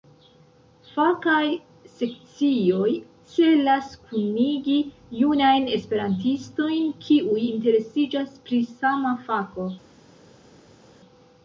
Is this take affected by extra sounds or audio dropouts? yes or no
no